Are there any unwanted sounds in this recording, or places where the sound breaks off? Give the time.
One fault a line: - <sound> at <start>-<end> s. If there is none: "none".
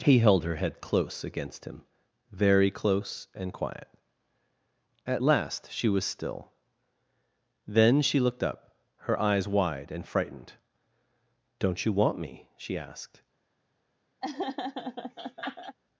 - laugh at 14.2-15.8 s